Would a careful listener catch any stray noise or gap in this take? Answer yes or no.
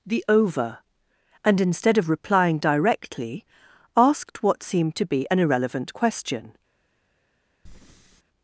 yes